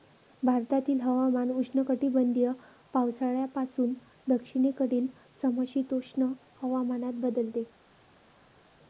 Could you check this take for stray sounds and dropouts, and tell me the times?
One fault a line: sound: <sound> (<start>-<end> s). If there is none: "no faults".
no faults